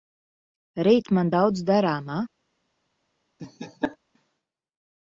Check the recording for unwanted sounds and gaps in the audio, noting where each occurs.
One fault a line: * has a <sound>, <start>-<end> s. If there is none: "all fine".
* has a laugh, 3.4-4.0 s